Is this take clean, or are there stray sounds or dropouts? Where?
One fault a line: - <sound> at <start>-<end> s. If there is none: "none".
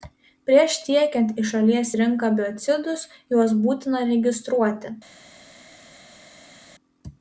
none